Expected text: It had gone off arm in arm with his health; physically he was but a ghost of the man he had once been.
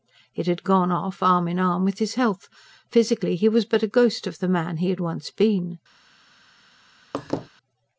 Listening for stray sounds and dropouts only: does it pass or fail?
fail